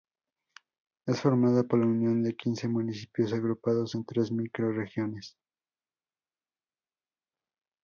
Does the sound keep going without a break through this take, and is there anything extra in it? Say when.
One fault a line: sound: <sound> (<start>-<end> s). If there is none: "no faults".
no faults